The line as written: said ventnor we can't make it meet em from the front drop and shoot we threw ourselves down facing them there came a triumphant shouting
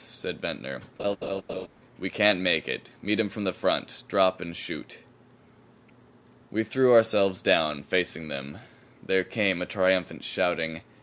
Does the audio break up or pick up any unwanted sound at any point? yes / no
yes